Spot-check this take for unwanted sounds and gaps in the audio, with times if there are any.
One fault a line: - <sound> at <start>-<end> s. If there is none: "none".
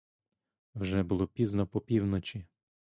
none